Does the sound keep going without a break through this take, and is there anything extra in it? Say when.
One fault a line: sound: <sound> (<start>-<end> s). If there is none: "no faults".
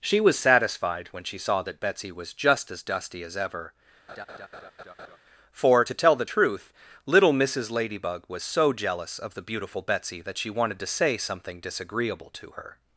sound: laugh (4.1-5.2 s)